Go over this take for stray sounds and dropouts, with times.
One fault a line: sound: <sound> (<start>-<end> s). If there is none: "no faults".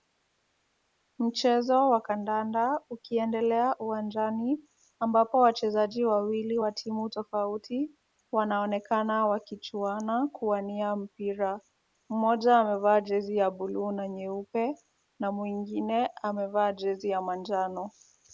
no faults